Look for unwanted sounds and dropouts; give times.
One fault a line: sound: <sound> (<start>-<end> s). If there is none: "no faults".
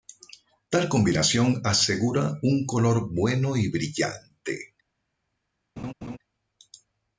sound: laugh (5.8-6.2 s)